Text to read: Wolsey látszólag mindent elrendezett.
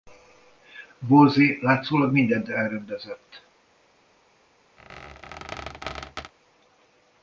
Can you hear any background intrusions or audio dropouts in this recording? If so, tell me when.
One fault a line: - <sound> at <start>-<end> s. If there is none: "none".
- squeak at 4.8-6.3 s